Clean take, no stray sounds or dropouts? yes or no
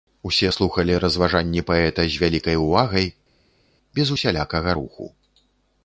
yes